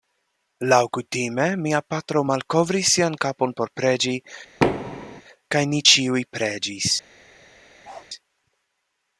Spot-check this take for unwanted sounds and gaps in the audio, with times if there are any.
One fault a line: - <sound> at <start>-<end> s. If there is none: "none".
- thud at 4.6-5.2 s
- bark at 7.8-8.1 s